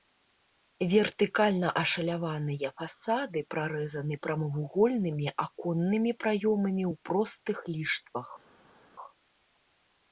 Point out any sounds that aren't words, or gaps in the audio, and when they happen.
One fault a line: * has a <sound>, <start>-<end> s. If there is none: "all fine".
all fine